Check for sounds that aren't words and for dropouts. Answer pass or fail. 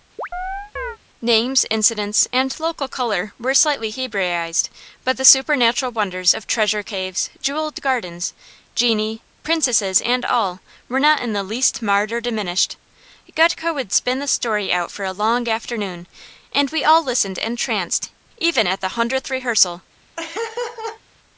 fail